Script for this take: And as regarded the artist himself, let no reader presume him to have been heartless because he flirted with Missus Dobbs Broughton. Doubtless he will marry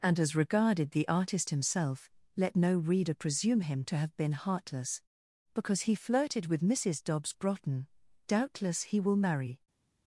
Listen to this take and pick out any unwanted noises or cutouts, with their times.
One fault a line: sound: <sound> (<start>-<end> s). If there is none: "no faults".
no faults